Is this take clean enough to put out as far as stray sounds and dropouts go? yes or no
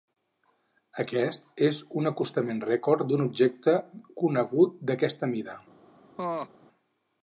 no